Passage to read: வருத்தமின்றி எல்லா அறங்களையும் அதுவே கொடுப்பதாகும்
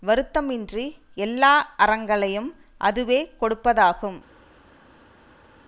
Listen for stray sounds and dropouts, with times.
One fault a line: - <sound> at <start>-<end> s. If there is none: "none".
none